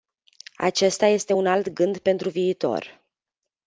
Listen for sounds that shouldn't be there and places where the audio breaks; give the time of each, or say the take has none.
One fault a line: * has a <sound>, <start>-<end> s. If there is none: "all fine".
all fine